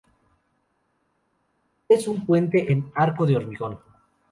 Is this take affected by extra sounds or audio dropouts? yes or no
no